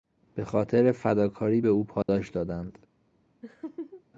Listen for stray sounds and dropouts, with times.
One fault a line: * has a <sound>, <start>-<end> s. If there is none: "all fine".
* has a dropout, 2.0-2.1 s
* has a laugh, 3.4-4.0 s